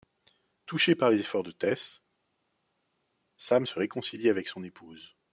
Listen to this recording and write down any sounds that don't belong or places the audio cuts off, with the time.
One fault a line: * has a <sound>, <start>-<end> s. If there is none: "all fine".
all fine